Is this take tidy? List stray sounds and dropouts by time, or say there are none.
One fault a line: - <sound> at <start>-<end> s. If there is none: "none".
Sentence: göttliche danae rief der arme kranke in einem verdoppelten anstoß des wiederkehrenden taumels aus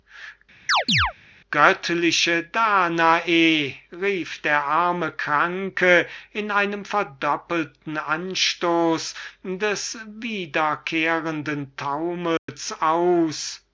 - chirp at 0.7-1.1 s
- dropout at 12.4-12.5 s